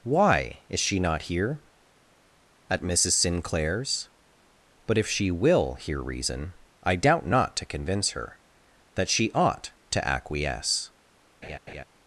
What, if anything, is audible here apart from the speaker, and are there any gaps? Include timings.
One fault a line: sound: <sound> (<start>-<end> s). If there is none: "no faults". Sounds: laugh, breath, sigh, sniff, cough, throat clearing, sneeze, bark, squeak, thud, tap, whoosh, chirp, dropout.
sound: laugh (11.4-11.8 s)